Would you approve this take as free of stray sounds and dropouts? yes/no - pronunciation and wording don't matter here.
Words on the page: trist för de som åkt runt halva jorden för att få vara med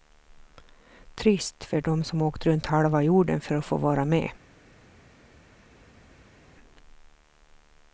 yes